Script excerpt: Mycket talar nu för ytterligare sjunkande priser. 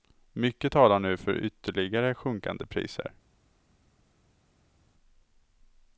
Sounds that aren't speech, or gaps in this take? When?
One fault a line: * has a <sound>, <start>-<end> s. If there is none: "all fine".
all fine